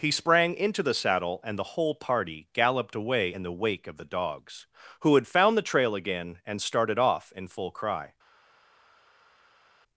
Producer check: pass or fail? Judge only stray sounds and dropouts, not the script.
pass